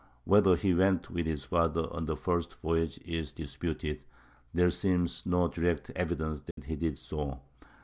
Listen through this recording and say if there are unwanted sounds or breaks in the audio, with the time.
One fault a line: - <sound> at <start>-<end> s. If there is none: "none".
- dropout at 6.5-6.6 s